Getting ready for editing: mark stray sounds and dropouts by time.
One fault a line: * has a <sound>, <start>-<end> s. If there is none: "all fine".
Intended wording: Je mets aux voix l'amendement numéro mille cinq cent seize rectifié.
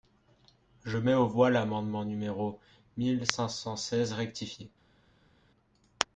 all fine